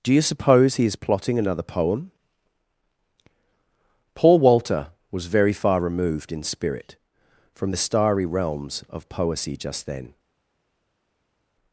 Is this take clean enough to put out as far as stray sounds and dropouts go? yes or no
yes